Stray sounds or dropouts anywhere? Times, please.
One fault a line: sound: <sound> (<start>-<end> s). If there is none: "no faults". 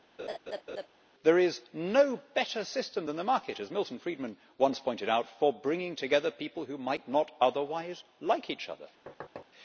sound: laugh (0.2-0.9 s)
sound: thud (9.1-9.5 s)